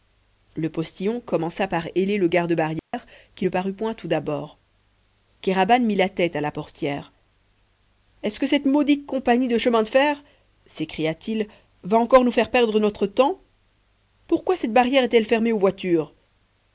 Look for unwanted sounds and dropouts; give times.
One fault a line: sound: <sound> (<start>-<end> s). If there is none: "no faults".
sound: dropout (2.8-2.9 s)